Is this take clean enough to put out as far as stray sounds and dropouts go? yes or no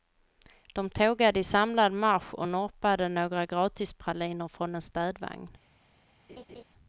no